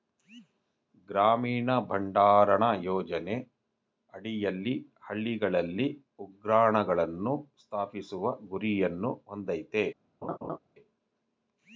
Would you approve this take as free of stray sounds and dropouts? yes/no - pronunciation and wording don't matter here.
no